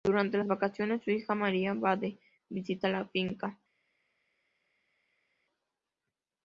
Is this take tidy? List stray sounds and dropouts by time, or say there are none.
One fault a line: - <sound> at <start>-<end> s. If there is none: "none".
none